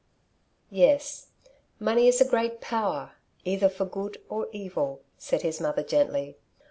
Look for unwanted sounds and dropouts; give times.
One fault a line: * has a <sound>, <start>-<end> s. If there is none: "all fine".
all fine